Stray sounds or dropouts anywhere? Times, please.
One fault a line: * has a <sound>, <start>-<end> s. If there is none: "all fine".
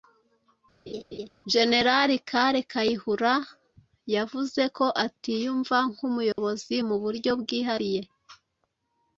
* has a laugh, 0.9-1.3 s
* has a dropout, 6.3-6.4 s